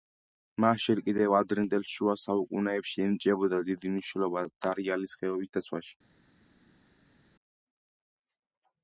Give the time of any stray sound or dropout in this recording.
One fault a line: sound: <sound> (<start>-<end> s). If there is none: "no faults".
no faults